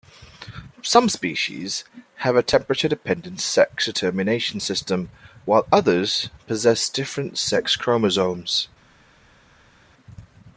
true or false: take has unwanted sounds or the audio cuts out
false